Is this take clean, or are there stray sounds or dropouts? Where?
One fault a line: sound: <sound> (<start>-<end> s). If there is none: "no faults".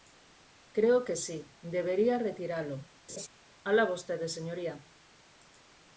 sound: laugh (3.1-3.3 s)